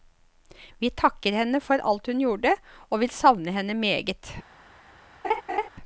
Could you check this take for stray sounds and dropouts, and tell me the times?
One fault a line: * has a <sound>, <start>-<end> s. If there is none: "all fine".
* has a laugh, 5.2-5.7 s